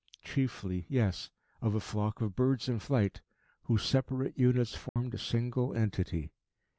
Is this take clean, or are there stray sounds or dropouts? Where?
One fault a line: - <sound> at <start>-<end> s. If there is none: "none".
- dropout at 4.9-5.0 s